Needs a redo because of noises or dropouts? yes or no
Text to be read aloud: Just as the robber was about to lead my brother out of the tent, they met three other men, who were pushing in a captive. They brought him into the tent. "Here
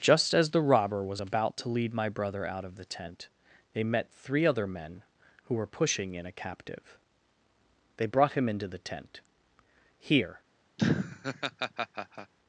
yes